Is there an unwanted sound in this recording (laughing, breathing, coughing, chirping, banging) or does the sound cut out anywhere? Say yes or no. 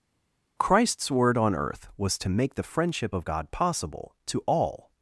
no